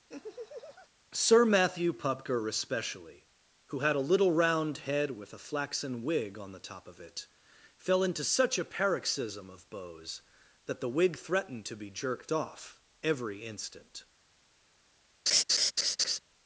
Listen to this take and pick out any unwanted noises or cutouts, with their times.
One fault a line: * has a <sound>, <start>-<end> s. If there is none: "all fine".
* has a laugh, 0.1-0.9 s
* has a laugh, 15.3-16.2 s